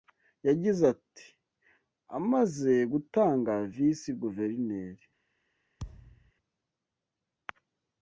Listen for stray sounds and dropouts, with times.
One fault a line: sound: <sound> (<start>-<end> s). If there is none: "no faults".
sound: thud (5.8-6.3 s)